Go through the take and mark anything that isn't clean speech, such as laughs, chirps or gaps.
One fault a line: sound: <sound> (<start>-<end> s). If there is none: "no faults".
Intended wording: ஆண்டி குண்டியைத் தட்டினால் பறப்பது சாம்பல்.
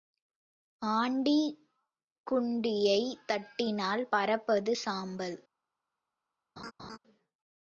sound: laugh (6.6-7.0 s)